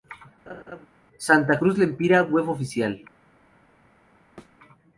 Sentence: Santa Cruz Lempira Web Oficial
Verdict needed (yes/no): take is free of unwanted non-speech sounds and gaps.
no